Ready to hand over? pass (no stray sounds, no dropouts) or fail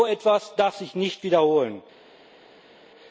pass